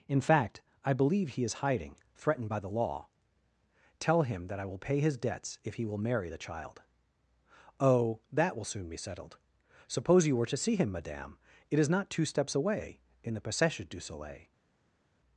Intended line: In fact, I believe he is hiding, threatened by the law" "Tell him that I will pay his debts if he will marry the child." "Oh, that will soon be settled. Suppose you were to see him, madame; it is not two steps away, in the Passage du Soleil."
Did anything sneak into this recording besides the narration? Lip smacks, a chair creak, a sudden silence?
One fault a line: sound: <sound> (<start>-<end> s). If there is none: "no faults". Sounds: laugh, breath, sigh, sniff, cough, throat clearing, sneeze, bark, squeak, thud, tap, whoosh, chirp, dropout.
no faults